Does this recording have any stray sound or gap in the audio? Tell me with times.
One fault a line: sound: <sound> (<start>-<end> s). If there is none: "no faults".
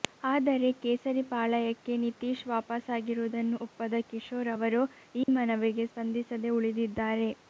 sound: dropout (5.2-5.3 s)